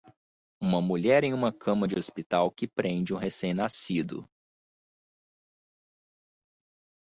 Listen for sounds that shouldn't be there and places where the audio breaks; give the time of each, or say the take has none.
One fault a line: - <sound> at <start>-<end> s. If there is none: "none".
none